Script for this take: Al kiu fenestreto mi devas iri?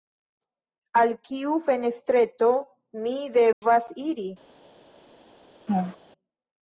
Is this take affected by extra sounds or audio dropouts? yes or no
yes